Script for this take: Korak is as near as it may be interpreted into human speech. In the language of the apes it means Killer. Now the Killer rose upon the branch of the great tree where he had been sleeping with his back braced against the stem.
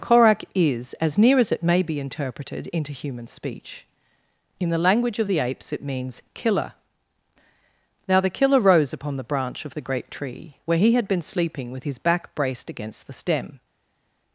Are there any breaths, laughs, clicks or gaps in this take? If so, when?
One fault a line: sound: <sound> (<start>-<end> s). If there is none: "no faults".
no faults